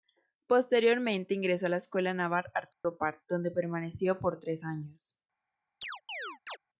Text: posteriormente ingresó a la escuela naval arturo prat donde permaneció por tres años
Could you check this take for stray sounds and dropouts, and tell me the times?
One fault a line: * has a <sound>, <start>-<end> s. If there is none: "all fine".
* has a dropout, 2.7-2.8 s
* has a chirp, 5.8-6.6 s